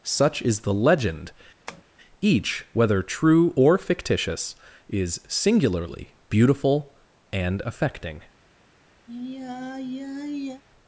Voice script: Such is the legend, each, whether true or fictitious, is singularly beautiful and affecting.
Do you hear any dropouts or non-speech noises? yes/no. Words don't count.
yes